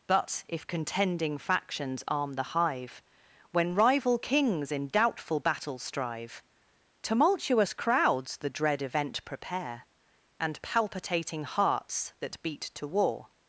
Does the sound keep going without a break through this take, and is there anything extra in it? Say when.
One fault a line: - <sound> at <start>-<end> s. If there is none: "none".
none